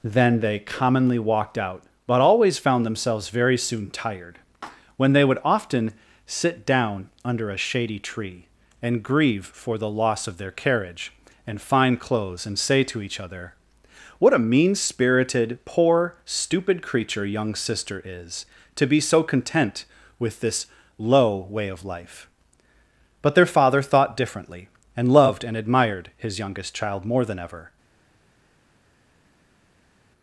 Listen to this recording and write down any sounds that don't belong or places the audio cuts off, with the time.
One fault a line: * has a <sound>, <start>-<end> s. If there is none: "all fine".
all fine